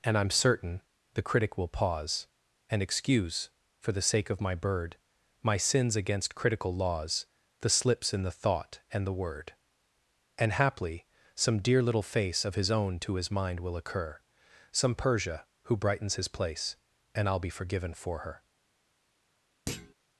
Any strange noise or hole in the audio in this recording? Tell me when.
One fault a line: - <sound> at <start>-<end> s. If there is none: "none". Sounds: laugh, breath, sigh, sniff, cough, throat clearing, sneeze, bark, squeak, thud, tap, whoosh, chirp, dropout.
- thud at 19.7-19.9 s